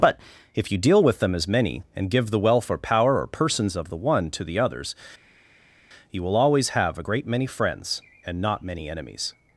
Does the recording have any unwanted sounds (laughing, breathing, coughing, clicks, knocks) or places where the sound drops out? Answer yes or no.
no